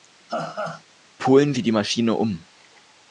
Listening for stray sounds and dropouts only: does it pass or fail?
fail